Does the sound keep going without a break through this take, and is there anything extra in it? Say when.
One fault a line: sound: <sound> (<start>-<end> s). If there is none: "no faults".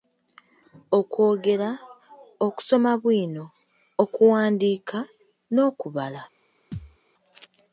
sound: thud (6.7-7.0 s)